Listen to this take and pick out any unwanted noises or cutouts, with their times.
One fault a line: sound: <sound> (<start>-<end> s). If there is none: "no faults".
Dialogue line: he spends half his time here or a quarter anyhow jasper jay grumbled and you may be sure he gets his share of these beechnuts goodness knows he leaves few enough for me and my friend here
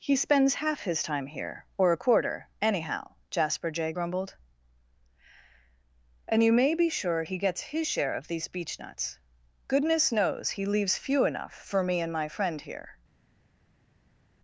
no faults